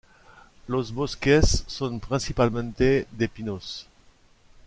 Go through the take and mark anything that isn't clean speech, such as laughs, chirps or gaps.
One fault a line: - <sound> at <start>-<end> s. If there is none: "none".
none